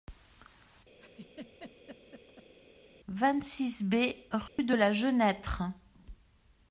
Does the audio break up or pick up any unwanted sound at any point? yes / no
yes